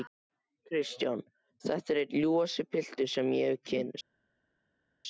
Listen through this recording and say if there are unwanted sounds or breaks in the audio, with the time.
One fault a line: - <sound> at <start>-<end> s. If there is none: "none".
none